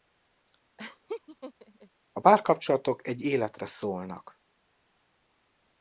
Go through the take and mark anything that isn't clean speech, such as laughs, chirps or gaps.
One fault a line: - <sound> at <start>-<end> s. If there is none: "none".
- laugh at 0.8-1.9 s